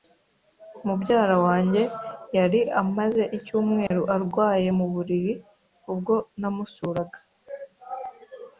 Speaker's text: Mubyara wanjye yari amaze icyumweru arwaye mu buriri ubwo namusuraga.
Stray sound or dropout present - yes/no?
yes